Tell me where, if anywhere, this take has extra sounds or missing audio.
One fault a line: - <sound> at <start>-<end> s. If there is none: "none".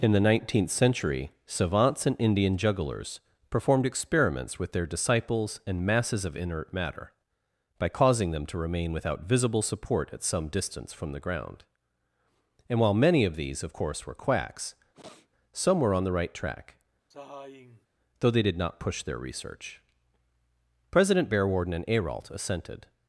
- sniff at 14.9-15.3 s
- sigh at 17.1-17.9 s